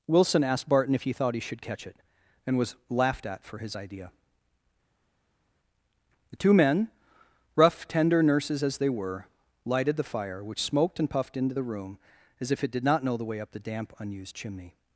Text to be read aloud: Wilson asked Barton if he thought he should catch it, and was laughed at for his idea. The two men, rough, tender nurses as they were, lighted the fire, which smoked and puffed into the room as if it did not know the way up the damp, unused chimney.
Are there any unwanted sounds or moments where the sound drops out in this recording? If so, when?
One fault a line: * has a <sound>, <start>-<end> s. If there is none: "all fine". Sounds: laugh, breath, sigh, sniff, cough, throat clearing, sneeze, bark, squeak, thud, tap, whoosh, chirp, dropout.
all fine